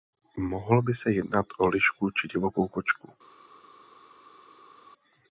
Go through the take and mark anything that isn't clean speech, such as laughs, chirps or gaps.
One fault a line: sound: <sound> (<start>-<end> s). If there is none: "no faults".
no faults